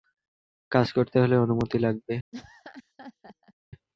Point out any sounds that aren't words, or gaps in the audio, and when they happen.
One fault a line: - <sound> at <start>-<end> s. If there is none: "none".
- laugh at 2.3-3.5 s